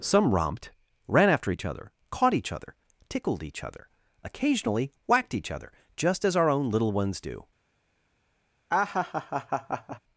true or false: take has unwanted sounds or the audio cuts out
true